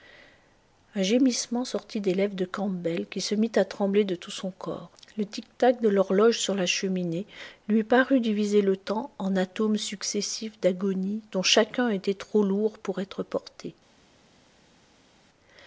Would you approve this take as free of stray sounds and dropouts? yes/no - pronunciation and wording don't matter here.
yes